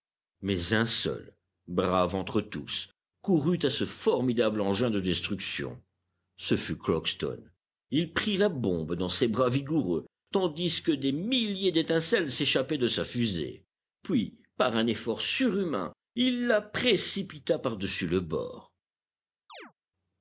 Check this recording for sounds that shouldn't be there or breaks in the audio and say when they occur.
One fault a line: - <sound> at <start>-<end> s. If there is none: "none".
- chirp at 19.5-19.7 s